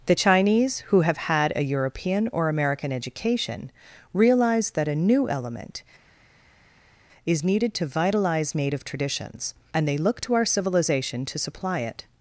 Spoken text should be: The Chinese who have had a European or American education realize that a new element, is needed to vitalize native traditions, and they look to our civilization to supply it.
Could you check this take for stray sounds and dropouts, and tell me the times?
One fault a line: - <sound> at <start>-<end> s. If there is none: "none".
none